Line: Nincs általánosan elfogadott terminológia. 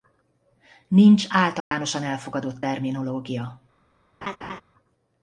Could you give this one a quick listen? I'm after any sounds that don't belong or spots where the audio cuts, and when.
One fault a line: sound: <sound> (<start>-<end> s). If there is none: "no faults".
sound: dropout (1.6-1.7 s)
sound: laugh (4.2-4.6 s)